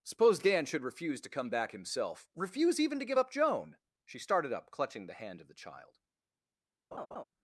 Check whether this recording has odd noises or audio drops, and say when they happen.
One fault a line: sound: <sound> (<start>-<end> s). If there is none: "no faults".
sound: laugh (6.9-7.2 s)